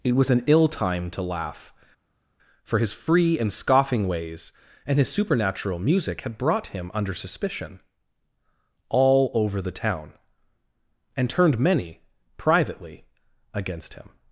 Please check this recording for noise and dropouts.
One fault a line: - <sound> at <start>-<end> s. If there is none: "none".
none